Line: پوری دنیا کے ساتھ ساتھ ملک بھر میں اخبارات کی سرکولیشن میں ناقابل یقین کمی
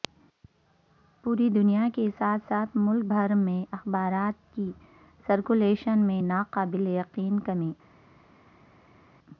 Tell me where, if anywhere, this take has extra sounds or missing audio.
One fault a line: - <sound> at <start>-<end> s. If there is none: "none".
none